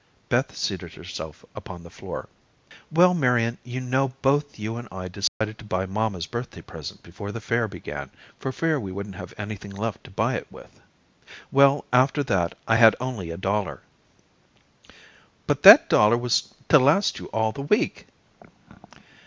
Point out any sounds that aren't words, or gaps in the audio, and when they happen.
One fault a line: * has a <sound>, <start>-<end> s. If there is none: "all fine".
* has a dropout, 5.3-5.4 s